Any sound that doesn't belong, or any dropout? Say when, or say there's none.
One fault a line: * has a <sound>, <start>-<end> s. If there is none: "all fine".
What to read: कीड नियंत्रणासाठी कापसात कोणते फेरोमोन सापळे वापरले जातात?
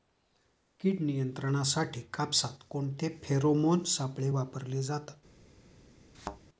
* has a thud, 6.1-6.4 s